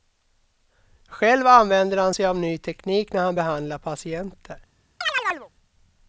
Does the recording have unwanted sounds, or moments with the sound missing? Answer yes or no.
yes